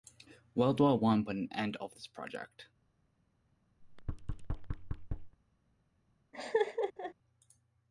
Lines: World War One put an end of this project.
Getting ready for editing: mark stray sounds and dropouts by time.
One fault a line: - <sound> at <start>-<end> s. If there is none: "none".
- thud at 3.8-5.4 s
- laugh at 6.3-7.1 s